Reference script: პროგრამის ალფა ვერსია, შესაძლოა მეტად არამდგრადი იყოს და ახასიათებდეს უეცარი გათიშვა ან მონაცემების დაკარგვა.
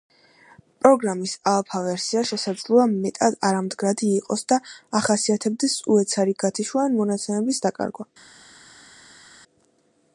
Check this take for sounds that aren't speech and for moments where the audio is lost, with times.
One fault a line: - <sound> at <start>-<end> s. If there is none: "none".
none